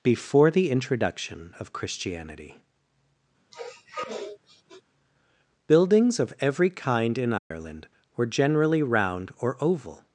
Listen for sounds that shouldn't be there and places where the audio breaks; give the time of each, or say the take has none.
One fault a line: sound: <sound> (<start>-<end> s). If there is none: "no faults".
sound: sniff (3.5-4.8 s)
sound: dropout (7.4-7.5 s)